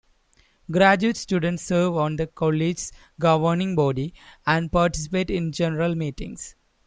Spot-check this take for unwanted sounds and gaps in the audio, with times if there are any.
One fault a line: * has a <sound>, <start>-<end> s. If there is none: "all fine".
all fine